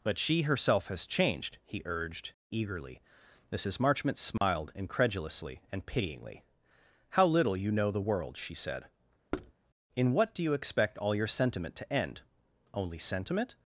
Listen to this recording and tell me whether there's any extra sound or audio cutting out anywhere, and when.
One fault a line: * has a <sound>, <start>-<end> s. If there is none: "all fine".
* has a dropout, 4.4-4.4 s
* has a thud, 9.3-9.5 s